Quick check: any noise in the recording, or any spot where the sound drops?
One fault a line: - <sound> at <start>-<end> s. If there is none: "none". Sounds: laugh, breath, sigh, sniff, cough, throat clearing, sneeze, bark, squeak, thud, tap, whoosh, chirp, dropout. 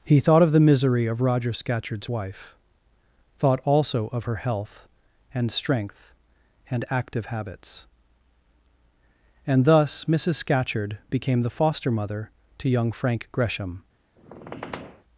- squeak at 14.2-15.0 s